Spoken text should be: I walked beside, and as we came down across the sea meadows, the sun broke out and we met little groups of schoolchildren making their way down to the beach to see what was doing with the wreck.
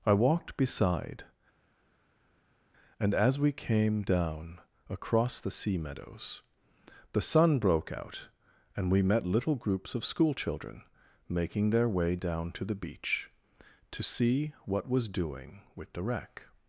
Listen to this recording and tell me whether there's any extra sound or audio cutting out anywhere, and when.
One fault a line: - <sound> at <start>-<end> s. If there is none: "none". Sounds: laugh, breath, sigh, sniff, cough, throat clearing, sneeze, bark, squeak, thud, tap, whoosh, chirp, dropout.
none